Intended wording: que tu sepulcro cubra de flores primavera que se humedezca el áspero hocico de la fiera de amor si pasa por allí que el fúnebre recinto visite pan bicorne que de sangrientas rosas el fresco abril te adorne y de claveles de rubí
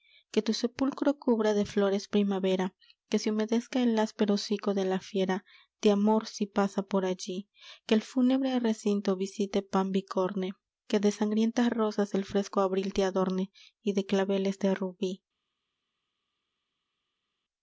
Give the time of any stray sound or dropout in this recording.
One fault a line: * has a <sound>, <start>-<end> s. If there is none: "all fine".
all fine